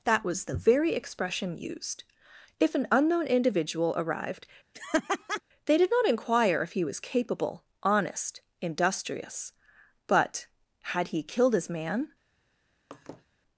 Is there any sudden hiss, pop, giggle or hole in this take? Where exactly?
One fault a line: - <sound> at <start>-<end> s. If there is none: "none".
- laugh at 4.7-5.4 s
- laugh at 12.9-13.3 s